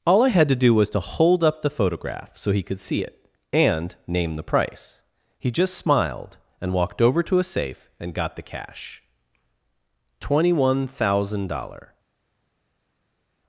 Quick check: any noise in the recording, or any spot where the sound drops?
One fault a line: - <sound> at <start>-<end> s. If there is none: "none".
none